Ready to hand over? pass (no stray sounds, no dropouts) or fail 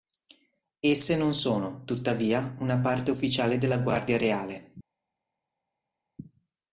pass